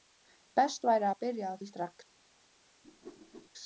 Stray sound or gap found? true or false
true